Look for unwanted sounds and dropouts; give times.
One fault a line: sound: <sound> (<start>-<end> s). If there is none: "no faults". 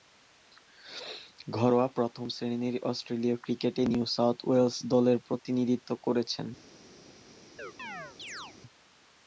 sound: chirp (7.6-8.6 s)